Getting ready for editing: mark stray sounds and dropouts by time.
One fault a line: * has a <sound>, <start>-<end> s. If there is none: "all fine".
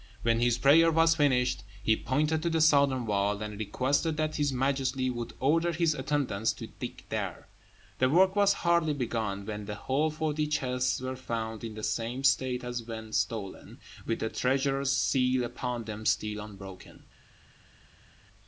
all fine